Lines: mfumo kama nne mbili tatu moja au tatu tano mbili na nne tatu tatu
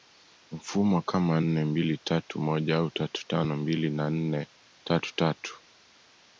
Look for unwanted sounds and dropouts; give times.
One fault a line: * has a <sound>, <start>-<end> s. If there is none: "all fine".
all fine